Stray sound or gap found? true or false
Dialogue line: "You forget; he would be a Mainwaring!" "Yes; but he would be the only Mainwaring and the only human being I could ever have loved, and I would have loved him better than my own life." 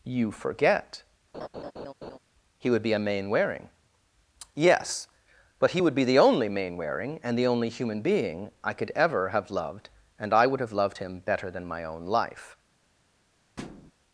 true